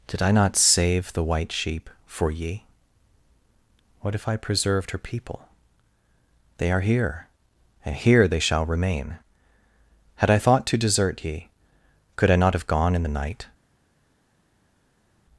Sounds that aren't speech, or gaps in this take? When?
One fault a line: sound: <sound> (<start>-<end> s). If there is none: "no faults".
no faults